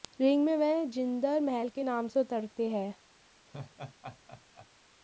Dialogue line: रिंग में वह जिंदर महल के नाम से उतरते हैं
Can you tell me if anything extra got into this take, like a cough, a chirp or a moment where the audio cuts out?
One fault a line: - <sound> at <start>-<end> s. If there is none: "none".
- laugh at 3.5-4.7 s